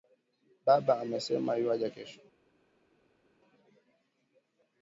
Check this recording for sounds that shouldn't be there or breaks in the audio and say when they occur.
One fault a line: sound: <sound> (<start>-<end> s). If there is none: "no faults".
no faults